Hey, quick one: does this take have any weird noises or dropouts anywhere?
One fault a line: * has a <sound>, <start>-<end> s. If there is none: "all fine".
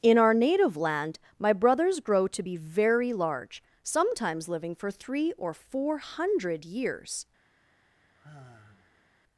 * has a sigh, 8.0-9.1 s